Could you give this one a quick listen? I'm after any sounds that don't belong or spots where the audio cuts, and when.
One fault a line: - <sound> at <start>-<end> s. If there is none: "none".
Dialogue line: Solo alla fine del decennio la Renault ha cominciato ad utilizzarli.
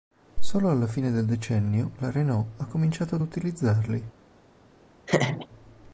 - laugh at 5.1-5.5 s